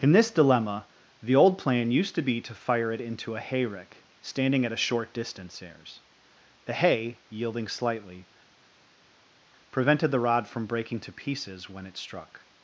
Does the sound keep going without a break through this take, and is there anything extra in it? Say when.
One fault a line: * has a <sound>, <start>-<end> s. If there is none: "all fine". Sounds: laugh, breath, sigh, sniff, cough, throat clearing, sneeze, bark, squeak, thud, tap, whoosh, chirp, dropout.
all fine